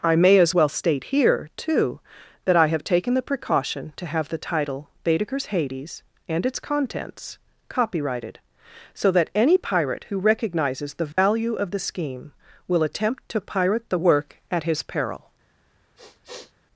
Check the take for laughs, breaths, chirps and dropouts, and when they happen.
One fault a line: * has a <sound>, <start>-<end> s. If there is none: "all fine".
* has a dropout, 11.1-11.2 s
* has a sniff, 16.0-16.5 s